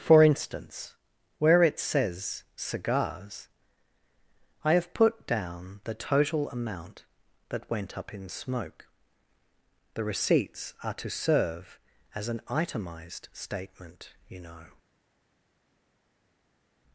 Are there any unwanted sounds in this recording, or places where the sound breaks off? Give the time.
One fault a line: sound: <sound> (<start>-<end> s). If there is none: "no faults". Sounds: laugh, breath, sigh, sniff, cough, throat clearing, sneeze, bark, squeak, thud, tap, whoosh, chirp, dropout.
no faults